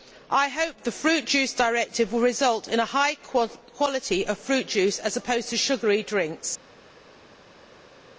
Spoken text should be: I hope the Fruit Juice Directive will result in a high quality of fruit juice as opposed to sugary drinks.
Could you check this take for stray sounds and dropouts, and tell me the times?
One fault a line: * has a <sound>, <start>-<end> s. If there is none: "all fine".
all fine